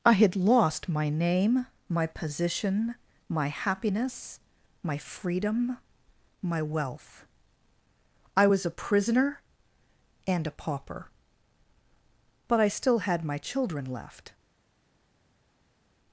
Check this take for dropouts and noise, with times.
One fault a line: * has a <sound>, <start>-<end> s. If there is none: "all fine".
all fine